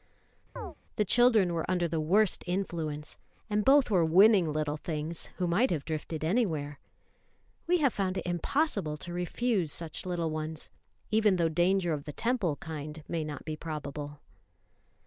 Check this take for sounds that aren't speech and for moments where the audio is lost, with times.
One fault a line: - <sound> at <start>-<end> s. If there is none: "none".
- chirp at 0.6-0.8 s